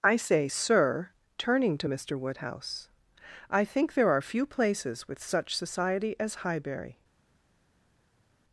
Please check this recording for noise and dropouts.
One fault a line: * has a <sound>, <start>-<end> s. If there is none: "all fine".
all fine